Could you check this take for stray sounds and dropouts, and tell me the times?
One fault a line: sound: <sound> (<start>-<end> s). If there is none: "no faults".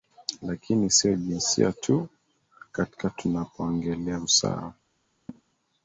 sound: laugh (5.3-5.4 s)